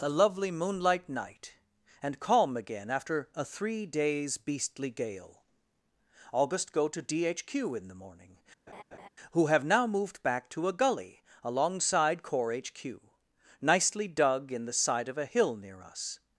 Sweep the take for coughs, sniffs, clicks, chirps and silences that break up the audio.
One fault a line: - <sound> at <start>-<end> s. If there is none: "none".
- laugh at 8.7-9.1 s